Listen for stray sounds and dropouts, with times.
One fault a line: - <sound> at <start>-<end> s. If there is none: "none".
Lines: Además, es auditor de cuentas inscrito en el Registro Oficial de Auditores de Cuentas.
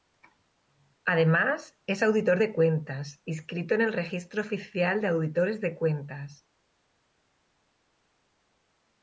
none